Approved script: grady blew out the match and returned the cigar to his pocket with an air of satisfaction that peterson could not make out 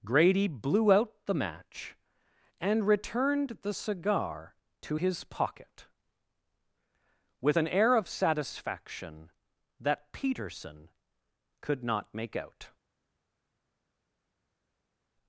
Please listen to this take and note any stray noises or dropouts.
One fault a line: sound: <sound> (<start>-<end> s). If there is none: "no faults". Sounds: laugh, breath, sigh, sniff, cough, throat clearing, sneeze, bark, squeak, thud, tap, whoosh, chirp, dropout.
no faults